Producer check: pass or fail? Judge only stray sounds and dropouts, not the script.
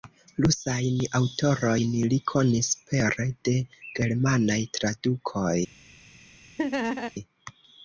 fail